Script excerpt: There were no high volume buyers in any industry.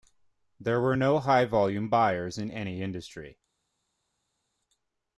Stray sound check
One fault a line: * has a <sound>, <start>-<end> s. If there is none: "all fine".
all fine